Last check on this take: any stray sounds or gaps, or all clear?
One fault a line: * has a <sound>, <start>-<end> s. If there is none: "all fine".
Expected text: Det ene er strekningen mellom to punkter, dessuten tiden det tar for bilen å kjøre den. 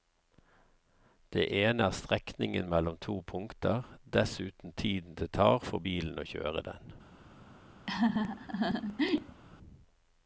* has a laugh, 7.9-9.4 s